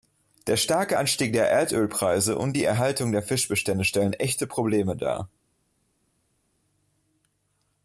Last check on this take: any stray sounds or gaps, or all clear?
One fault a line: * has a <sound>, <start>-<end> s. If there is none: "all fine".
all fine